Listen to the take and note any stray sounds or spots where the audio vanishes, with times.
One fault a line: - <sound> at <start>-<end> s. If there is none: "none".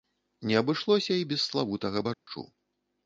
- dropout at 2.1-2.3 s